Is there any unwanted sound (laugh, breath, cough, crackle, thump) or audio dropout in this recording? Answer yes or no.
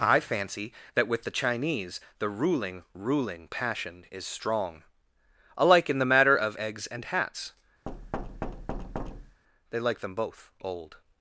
yes